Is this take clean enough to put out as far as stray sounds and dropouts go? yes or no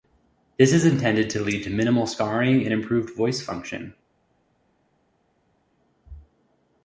yes